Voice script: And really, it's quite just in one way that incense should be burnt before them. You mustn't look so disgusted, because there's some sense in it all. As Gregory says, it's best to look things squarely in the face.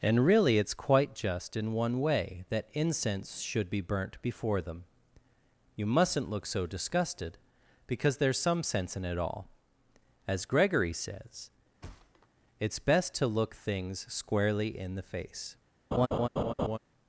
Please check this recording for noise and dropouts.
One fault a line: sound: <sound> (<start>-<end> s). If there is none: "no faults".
sound: thud (11.8-12.3 s)
sound: laugh (15.9-16.8 s)